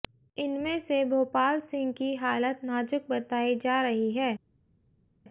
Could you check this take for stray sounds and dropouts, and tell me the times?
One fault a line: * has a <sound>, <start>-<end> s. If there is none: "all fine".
all fine